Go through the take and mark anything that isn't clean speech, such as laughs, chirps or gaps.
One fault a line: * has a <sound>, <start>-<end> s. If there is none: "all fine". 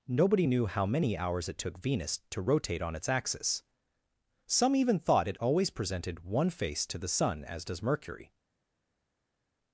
all fine